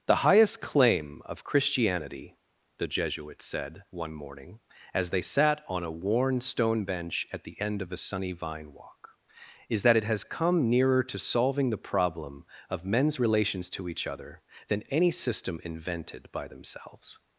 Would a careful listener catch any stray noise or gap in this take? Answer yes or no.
no